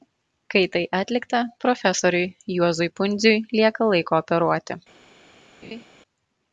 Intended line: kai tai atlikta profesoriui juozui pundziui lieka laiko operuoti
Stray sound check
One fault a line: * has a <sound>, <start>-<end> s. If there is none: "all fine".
* has a laugh, 5.6-5.8 s